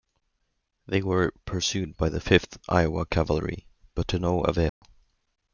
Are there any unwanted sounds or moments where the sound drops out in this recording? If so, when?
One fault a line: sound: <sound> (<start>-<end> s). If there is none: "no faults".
sound: dropout (4.7-4.8 s)